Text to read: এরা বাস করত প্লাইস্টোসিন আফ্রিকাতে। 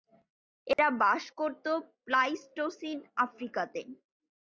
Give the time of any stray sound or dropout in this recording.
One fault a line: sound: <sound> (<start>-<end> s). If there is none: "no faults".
sound: dropout (0.7-0.8 s)